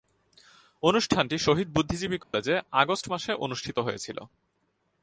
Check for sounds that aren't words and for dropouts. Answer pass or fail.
fail